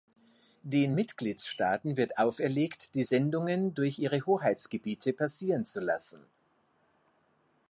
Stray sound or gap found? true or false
false